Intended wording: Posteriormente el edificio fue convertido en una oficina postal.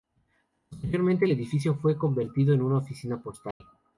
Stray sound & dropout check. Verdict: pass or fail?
fail